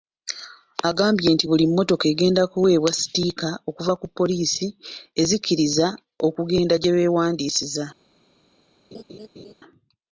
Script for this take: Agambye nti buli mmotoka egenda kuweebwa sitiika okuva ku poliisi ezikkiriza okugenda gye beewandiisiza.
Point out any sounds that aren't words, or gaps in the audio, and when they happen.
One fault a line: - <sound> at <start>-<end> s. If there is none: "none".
- laugh at 8.9-9.5 s